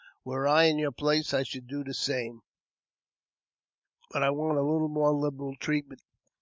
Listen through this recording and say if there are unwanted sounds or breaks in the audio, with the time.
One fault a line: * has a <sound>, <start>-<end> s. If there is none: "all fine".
all fine